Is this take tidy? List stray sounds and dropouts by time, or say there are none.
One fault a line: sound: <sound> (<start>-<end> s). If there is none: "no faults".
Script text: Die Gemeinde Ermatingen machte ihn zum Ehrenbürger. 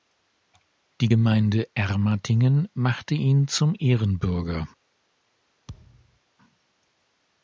sound: thud (5.7-6.2 s)